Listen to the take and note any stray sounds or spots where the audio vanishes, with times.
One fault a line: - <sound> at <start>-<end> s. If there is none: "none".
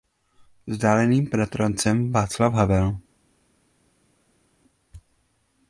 none